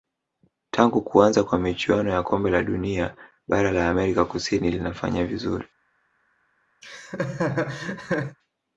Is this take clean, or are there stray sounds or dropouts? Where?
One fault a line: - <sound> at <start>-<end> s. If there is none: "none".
- laugh at 6.8-8.4 s